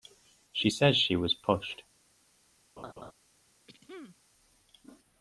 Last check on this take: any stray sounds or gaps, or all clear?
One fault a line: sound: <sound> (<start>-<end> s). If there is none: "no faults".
sound: laugh (2.8-3.1 s)
sound: throat clearing (3.7-4.2 s)